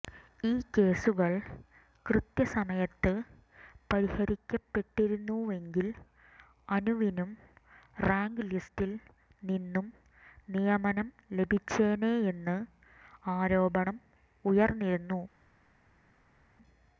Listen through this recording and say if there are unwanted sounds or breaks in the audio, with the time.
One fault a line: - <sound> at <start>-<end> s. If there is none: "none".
none